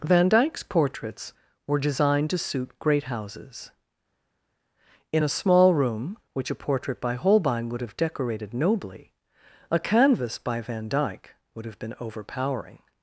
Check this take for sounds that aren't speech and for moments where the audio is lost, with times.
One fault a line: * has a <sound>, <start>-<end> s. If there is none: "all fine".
all fine